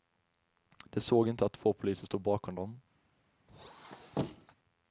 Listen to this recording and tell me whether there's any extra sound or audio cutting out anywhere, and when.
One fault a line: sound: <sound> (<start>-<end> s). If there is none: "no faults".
sound: squeak (3.5-4.6 s)